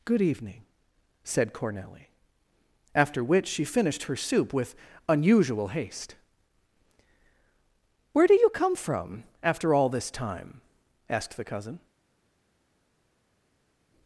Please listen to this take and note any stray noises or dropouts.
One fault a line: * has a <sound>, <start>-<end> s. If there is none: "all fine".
all fine